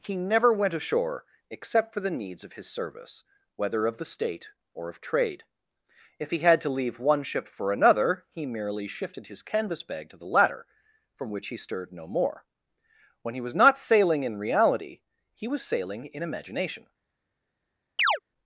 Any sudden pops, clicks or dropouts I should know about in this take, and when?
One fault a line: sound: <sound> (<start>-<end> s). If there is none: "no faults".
sound: chirp (18.0-18.2 s)